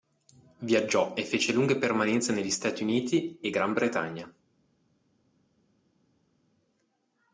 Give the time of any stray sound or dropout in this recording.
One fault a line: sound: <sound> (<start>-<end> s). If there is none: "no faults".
no faults